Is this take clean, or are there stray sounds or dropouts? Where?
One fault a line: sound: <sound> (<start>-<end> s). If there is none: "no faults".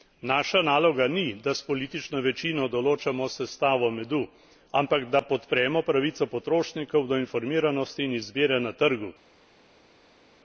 no faults